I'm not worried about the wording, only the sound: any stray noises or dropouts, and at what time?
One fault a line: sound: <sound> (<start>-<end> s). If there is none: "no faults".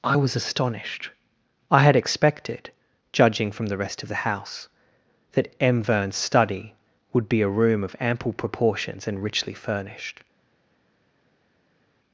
no faults